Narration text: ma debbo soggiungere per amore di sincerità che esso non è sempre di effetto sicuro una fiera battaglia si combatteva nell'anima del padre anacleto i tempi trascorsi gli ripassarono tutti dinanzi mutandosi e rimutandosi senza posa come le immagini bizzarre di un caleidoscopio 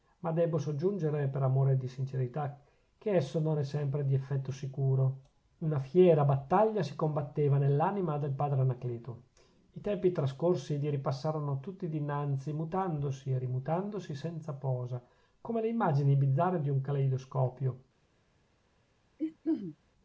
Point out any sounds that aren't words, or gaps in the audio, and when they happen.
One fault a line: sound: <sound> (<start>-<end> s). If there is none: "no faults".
sound: throat clearing (19.2-19.8 s)